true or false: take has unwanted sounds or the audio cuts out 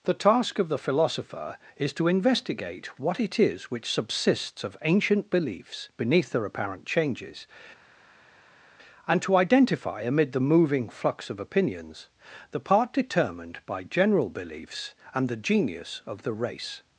false